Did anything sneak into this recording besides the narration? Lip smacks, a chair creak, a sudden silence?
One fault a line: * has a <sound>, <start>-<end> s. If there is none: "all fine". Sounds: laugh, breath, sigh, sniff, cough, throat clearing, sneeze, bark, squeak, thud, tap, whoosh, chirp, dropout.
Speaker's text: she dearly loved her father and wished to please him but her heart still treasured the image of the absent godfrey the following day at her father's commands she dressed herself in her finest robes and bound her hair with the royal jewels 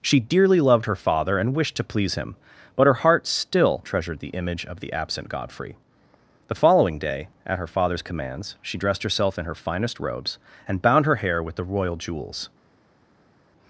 all fine